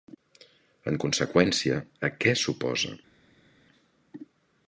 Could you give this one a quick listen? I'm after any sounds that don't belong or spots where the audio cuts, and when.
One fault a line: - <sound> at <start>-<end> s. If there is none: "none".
none